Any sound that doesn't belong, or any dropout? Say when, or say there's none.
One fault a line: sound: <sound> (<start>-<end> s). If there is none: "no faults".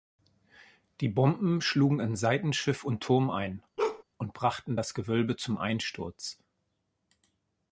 sound: bark (3.8-4.0 s)